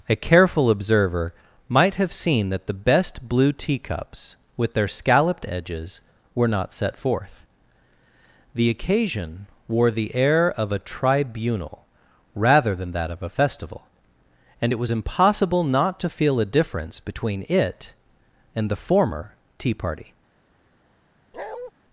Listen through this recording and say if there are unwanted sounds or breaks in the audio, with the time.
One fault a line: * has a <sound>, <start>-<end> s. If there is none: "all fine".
* has a bark, 21.3-21.7 s